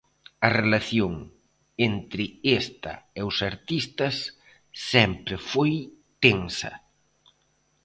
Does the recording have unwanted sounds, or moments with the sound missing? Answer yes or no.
no